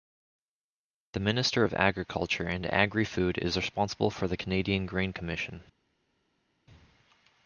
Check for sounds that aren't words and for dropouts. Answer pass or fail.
pass